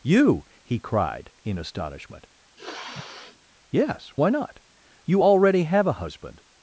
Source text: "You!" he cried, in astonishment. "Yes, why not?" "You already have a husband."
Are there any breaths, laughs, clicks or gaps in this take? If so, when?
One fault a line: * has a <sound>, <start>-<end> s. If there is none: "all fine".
* has a sniff, 2.6-3.4 s